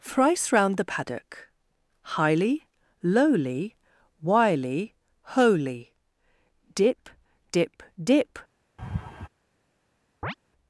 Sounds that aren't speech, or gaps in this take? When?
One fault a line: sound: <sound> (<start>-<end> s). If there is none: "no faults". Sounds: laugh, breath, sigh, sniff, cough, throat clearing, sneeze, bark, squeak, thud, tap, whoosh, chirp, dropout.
sound: laugh (8.8-9.3 s)
sound: chirp (10.2-10.3 s)